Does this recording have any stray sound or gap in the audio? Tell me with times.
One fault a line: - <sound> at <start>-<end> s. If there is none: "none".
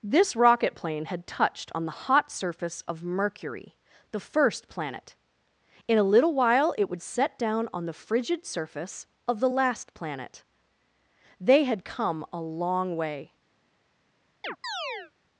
- chirp at 14.4-15.1 s